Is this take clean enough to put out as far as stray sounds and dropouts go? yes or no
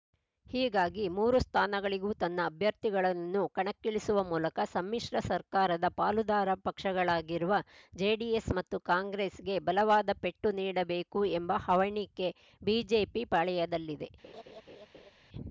no